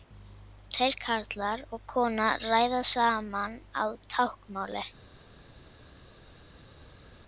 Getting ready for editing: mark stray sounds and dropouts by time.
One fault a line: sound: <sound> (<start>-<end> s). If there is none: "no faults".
no faults